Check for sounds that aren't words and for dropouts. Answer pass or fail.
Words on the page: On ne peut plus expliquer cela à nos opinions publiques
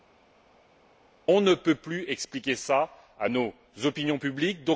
pass